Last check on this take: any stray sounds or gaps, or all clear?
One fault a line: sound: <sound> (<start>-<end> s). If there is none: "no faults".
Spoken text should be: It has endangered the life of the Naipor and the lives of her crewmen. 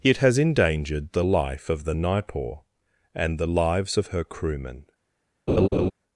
sound: laugh (5.5-5.9 s)